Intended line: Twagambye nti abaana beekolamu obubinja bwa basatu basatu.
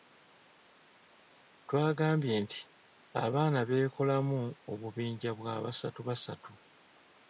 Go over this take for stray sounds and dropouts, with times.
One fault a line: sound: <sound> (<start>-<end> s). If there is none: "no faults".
no faults